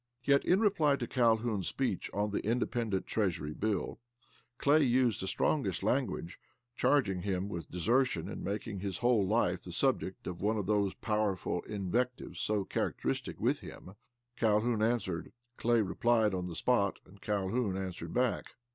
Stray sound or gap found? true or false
false